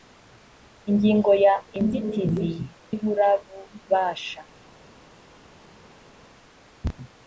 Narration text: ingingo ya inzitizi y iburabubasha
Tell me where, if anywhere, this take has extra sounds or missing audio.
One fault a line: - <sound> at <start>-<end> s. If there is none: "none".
none